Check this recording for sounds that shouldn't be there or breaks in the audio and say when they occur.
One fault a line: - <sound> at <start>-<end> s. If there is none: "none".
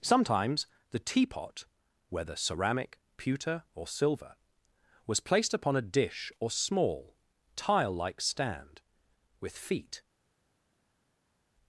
none